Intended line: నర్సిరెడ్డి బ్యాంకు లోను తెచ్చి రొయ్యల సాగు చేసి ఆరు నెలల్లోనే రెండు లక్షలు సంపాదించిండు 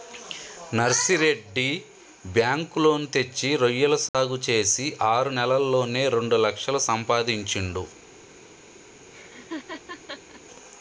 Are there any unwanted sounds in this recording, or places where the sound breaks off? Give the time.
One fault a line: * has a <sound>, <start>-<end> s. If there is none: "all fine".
* has a dropout, 4.1-4.1 s
* has a laugh, 9.1-10.4 s